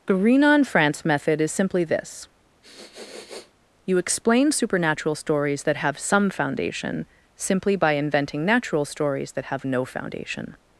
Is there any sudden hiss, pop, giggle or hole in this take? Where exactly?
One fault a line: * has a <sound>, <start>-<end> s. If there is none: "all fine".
* has a sniff, 2.6-3.5 s